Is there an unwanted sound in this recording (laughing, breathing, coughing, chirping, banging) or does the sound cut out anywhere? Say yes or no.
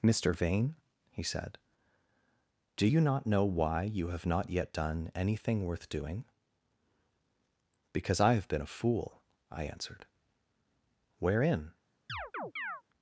yes